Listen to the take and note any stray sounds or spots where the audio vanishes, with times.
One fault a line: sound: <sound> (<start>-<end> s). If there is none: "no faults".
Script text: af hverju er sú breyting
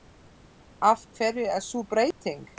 sound: dropout (2.1-2.2 s)